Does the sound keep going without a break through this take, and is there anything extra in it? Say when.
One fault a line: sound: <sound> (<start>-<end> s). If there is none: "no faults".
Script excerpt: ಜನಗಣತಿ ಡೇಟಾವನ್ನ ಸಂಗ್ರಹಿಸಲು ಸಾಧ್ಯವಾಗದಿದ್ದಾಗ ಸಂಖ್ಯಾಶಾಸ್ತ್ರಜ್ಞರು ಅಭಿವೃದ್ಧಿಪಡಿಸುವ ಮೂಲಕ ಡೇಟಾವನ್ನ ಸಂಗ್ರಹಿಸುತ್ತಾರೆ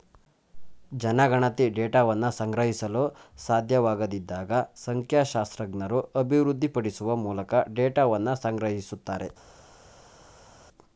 no faults